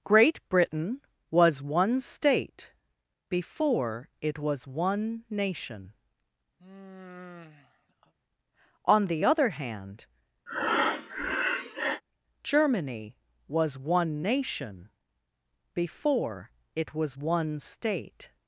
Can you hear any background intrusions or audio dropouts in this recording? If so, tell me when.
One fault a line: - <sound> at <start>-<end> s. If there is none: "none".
- sigh at 6.6-8.1 s
- breath at 10.5-12.0 s